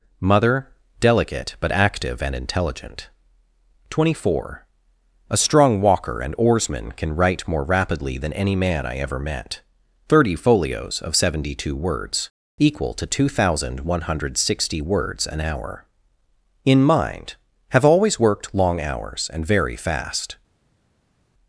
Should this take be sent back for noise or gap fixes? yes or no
no